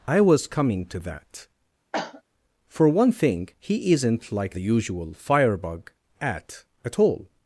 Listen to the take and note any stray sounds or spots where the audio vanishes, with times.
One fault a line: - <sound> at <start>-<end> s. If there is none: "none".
- cough at 1.9-2.2 s